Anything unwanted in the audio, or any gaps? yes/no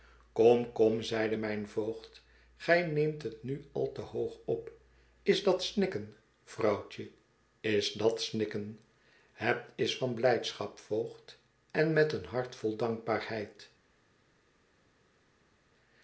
no